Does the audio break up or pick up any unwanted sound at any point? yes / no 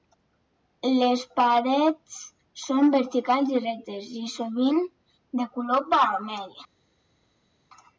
no